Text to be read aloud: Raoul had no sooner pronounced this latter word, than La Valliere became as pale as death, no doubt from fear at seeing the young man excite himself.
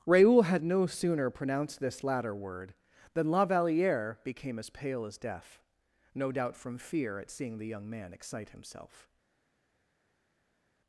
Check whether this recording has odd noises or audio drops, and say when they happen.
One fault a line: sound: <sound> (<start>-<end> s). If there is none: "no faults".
no faults